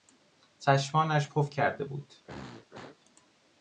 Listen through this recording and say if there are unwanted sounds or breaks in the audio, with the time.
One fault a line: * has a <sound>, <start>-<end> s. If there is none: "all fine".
* has a throat clearing, 2.2-3.0 s